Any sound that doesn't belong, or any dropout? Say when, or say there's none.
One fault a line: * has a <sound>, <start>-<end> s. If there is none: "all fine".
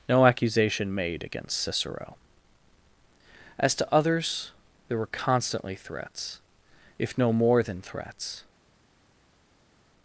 all fine